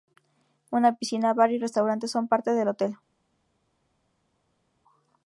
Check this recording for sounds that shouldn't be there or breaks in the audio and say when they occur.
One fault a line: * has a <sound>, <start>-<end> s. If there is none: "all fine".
all fine